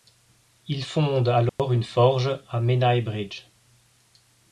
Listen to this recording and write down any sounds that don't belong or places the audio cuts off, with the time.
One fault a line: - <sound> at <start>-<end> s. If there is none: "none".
- dropout at 1.5-1.6 s